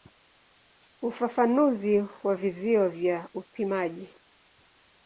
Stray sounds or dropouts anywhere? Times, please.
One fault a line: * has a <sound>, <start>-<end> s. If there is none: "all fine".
all fine